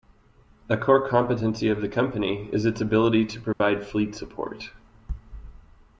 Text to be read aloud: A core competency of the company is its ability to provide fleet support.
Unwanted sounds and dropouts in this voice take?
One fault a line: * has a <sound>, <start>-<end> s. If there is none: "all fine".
* has a dropout, 3.5-3.6 s